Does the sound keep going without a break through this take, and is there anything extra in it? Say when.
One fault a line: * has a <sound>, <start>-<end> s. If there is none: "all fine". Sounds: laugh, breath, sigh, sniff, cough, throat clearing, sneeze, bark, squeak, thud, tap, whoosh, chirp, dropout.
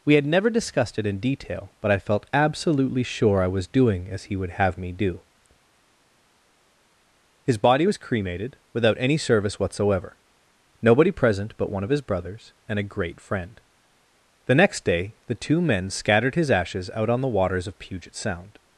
all fine